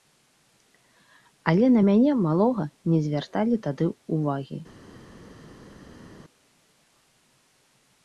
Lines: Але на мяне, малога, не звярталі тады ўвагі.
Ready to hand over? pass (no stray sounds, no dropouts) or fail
pass